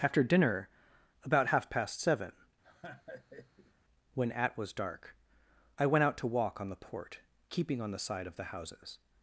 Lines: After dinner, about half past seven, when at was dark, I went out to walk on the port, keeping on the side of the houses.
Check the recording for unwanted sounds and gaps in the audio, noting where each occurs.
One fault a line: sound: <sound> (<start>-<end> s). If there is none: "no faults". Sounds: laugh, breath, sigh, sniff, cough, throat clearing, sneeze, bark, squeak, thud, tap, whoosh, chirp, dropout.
sound: laugh (2.6-3.7 s)